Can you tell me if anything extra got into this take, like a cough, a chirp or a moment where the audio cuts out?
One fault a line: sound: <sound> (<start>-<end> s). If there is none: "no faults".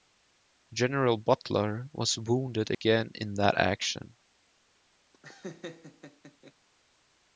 sound: dropout (2.7-2.8 s)
sound: laugh (5.1-6.5 s)